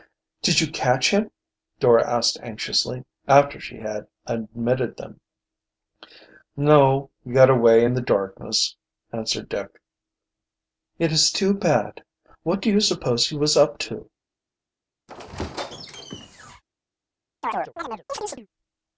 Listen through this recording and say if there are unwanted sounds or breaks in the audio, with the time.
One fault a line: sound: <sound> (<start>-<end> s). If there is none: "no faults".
sound: squeak (15.1-16.6 s)
sound: chirp (17.4-18.5 s)